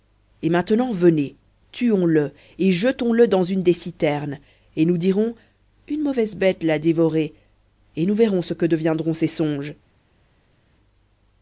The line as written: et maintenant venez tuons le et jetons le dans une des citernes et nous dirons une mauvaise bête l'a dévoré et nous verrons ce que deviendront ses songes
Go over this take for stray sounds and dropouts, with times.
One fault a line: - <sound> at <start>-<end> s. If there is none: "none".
none